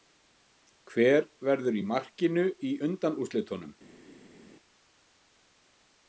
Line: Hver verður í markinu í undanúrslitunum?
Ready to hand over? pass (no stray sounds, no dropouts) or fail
pass